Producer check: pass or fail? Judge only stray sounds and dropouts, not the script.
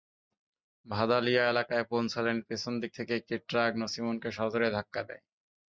pass